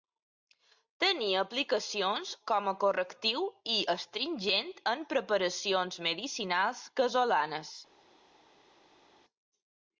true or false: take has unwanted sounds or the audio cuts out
false